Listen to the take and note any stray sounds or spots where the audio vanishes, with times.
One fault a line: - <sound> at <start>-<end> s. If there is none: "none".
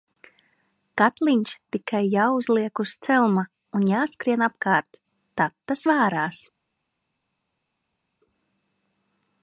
none